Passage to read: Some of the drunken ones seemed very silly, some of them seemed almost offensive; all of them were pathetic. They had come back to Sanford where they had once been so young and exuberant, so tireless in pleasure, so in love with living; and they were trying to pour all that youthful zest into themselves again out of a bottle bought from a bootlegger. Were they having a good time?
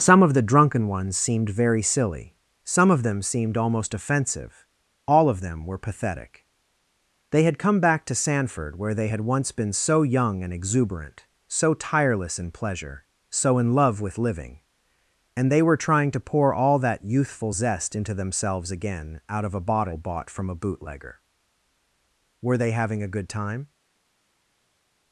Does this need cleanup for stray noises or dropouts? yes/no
no